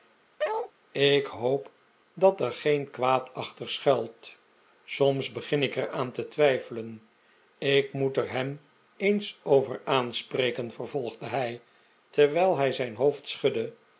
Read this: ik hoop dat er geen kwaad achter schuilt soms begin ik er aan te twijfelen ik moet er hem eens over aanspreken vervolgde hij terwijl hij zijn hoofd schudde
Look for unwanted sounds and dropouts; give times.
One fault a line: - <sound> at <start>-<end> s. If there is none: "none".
- bark at 0.4-0.7 s